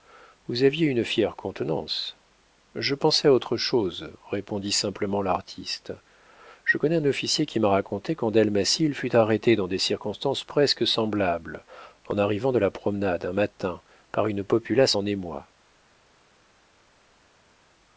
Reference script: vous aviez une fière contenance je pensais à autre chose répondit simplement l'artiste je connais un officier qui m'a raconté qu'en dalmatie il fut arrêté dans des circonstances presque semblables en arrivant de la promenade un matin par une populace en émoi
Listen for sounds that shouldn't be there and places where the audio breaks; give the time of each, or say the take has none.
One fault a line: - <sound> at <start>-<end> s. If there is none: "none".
none